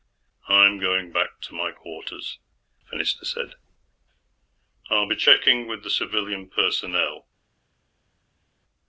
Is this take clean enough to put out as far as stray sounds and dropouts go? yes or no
yes